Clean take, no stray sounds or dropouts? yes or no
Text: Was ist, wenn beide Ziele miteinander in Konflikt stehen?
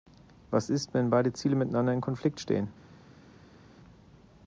yes